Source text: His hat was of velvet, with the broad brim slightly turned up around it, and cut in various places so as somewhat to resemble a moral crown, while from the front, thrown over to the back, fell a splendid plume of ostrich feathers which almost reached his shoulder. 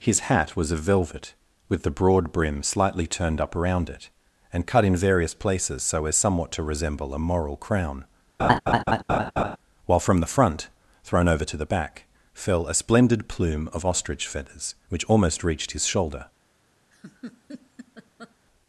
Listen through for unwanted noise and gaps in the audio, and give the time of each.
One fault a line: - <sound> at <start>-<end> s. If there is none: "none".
- laugh at 8.4-9.6 s
- laugh at 16.9-18.3 s